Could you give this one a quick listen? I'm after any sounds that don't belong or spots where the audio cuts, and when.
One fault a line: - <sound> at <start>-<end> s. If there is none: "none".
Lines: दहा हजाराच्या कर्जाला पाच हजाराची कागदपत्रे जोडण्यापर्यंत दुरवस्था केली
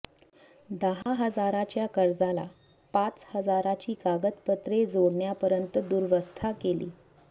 - dropout at 1.0-1.1 s